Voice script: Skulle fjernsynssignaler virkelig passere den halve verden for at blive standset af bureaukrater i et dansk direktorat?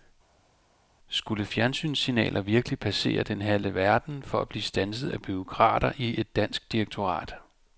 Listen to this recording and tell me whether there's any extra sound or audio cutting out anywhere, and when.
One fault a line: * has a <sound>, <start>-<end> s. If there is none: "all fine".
all fine